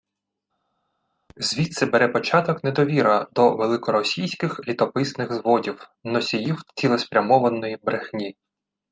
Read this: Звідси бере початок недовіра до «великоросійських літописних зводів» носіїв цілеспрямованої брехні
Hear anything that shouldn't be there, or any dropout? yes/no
no